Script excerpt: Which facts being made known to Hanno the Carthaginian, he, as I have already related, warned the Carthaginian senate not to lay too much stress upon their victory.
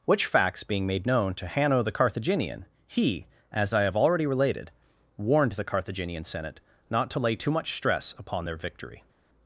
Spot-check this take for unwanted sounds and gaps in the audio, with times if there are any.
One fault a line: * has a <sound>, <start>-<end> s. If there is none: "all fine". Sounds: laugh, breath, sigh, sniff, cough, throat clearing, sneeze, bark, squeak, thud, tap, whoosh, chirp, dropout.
all fine